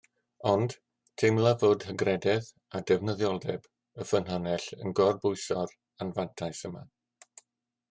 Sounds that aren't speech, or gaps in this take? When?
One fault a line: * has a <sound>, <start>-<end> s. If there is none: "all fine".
all fine